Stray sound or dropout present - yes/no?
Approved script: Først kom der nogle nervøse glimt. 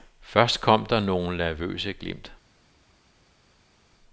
no